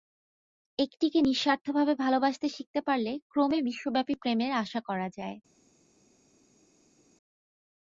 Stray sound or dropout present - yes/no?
no